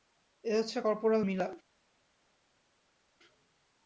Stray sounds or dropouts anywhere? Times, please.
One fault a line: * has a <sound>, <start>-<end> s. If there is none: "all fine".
all fine